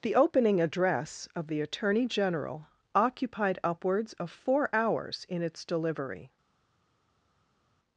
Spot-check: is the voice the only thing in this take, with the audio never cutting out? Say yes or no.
yes